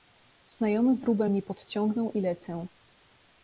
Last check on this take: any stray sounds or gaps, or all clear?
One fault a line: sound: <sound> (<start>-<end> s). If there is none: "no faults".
no faults